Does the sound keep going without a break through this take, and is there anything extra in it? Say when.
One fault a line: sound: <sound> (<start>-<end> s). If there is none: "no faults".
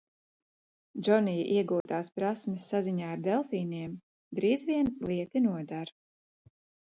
sound: dropout (1.8-1.9 s)